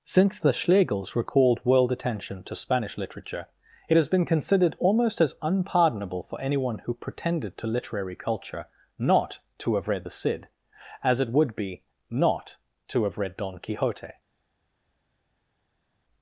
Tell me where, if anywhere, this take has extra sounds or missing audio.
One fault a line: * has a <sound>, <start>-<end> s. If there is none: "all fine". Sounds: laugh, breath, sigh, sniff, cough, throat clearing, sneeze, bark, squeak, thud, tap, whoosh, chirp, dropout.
all fine